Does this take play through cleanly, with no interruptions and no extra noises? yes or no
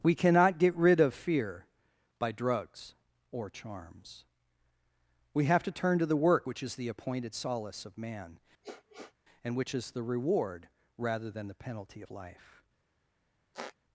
no